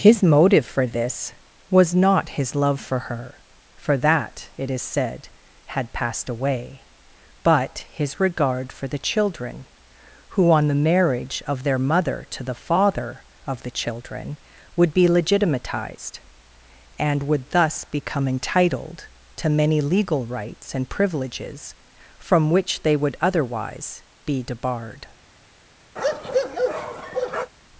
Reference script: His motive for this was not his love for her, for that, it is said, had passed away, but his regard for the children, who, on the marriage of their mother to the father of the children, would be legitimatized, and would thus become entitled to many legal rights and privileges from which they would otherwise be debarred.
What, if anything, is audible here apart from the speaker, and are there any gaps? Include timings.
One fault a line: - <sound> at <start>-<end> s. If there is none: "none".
- bark at 26.0-27.5 s